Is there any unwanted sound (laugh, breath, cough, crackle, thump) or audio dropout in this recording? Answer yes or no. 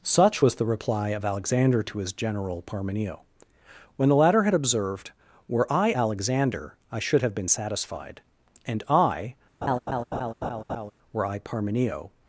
yes